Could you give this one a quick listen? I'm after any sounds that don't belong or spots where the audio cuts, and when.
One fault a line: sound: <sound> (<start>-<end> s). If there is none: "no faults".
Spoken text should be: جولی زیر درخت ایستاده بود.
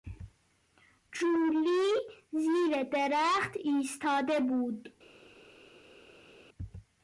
no faults